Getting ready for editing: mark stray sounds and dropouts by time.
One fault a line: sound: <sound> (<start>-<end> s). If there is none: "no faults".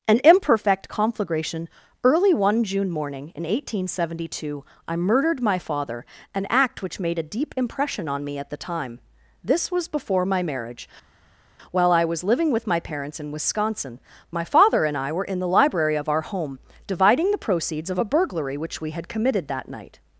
no faults